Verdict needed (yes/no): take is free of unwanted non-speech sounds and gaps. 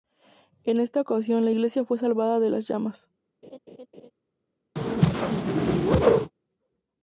no